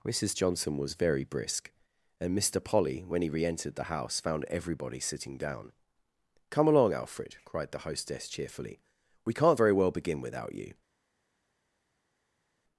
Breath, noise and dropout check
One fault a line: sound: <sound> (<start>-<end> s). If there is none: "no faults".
no faults